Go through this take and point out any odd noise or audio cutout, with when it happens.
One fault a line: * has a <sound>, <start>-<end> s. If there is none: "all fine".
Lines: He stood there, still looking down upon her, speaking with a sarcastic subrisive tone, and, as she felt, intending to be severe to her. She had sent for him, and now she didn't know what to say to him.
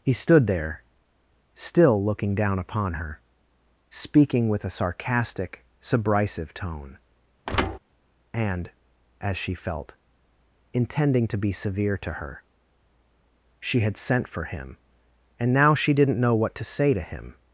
* has a thud, 7.5-7.8 s